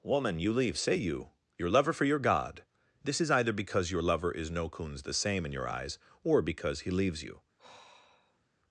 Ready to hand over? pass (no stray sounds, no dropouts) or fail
fail